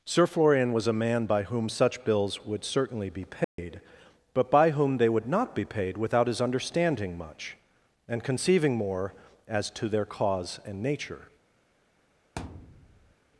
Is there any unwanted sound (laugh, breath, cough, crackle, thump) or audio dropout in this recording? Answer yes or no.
yes